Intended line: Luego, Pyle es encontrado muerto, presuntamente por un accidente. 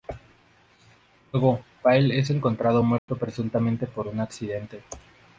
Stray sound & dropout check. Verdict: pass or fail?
fail